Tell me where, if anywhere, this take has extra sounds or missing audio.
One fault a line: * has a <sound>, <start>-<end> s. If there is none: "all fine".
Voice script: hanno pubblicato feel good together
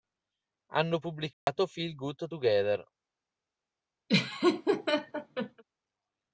* has a dropout, 1.3-1.5 s
* has a laugh, 4.1-5.6 s